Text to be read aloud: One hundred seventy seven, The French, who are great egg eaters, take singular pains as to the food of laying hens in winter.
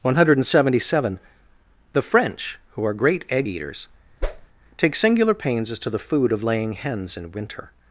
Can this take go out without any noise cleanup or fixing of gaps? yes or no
no